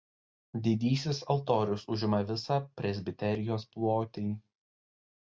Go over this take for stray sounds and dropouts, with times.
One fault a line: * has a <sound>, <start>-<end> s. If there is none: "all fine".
all fine